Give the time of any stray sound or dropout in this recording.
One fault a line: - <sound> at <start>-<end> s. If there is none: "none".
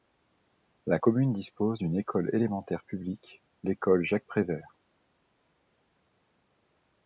none